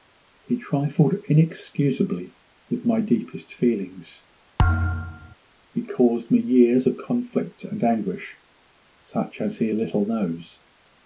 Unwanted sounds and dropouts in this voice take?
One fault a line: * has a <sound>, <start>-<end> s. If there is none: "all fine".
* has a thud, 4.6-5.4 s